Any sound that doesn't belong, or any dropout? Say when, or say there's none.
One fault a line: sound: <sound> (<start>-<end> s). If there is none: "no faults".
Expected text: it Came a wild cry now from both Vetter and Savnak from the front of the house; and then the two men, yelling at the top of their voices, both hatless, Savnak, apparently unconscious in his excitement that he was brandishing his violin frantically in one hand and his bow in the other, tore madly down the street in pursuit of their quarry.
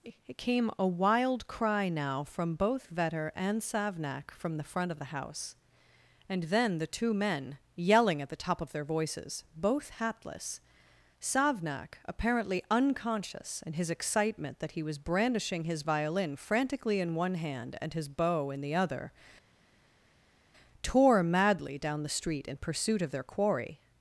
no faults